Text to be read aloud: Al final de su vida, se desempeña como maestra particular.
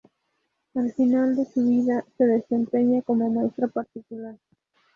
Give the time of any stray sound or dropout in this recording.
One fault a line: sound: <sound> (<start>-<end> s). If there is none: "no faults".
no faults